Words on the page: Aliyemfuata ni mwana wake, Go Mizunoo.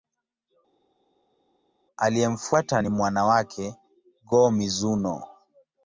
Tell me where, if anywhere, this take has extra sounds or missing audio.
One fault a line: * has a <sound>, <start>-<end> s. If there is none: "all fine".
all fine